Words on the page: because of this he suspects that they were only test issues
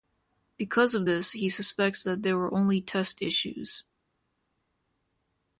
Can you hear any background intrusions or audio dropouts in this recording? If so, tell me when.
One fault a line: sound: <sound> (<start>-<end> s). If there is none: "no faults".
no faults